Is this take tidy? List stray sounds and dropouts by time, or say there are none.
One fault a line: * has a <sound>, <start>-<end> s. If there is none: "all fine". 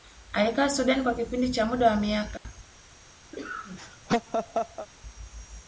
* has a dropout, 2.4-2.5 s
* has a laugh, 3.3-4.9 s